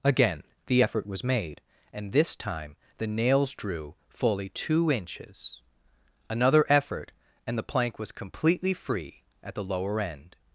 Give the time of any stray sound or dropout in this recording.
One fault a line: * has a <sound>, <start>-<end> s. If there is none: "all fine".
all fine